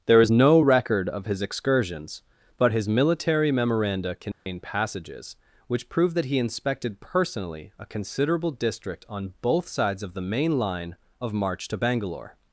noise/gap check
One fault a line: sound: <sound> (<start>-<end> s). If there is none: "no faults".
sound: dropout (4.3-4.5 s)